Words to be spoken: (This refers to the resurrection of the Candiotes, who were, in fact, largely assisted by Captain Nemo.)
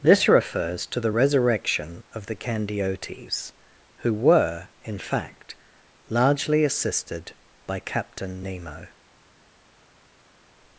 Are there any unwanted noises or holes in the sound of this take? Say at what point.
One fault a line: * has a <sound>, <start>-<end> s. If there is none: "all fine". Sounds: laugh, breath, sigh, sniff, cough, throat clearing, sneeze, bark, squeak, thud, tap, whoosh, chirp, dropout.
all fine